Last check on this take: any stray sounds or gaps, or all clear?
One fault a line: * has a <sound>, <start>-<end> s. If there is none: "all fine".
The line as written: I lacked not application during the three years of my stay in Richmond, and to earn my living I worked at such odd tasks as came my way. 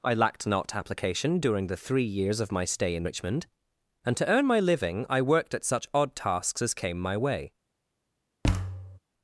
* has a thud, 8.4-9.0 s